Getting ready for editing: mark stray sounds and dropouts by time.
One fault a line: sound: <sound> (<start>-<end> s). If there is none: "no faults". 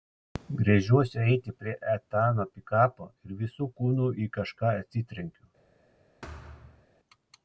sound: thud (6.2-6.9 s)